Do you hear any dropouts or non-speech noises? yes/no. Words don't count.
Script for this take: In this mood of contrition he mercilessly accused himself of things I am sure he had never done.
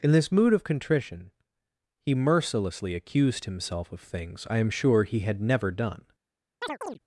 yes